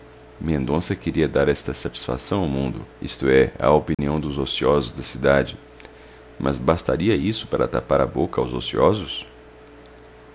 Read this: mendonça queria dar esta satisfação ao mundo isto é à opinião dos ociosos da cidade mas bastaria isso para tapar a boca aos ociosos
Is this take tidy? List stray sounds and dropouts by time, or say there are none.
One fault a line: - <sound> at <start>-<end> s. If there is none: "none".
- dropout at 3.9-4.0 s